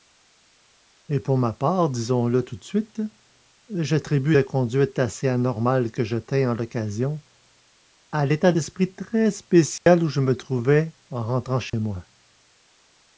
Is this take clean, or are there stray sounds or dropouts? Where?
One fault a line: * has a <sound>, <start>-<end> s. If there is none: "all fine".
* has a dropout, 9.8-9.9 s
* has a dropout, 11.7-11.7 s